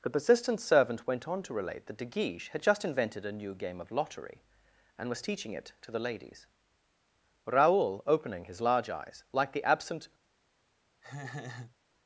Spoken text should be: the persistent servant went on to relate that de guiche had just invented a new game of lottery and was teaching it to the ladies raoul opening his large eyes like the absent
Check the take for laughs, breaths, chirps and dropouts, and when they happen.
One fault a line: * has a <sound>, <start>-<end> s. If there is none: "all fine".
* has a laugh, 11.0-11.8 s